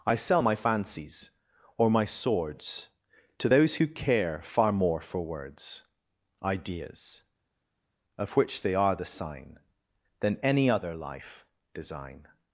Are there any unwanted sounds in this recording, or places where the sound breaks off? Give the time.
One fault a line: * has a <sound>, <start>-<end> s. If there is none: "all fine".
all fine